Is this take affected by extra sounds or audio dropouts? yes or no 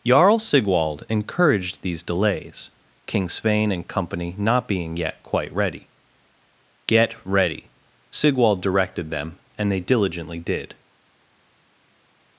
no